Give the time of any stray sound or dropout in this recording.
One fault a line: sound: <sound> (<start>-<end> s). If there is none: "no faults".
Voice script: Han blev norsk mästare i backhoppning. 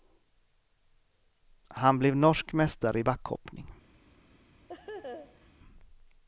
sound: laugh (4.7-5.5 s)